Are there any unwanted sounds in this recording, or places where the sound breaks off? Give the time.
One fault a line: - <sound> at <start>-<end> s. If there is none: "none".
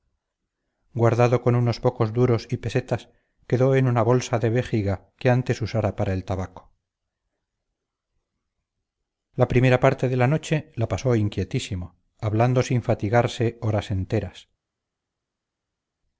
none